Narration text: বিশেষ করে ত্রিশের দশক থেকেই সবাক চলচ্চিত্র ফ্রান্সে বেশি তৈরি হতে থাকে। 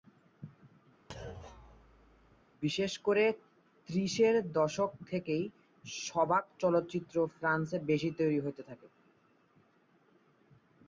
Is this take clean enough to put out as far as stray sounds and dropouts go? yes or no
no